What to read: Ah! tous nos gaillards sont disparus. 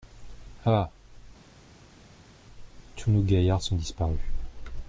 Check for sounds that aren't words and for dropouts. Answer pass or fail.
pass